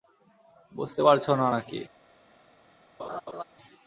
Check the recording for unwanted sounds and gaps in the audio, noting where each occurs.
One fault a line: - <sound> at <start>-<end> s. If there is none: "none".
- laugh at 3.0-3.4 s